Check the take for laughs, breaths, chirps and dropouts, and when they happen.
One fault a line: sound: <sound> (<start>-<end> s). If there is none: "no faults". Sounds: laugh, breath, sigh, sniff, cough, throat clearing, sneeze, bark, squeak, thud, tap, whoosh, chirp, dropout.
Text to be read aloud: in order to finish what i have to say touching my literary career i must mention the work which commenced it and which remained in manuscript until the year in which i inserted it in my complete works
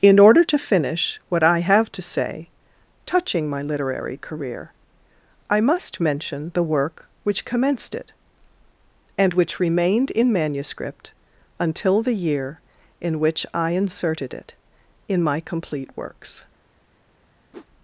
sound: whoosh (17.5-17.7 s)